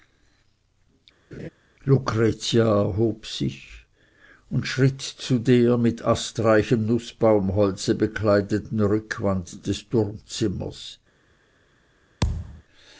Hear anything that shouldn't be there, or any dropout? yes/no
yes